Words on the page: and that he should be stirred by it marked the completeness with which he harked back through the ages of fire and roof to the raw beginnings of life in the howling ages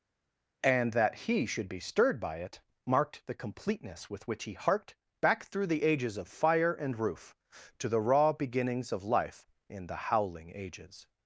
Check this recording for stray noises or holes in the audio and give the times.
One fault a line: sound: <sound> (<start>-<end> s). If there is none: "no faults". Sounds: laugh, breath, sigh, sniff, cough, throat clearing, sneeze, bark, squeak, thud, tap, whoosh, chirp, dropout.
no faults